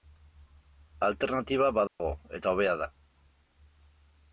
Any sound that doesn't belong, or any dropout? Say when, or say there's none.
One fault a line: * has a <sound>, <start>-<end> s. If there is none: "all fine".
* has a dropout, 1.9-2.0 s